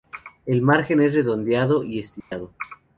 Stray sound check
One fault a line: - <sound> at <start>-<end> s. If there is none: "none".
- dropout at 2.2-2.3 s